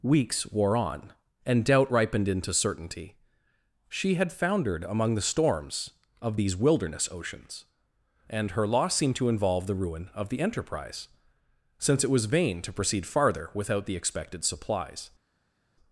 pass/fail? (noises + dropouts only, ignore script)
pass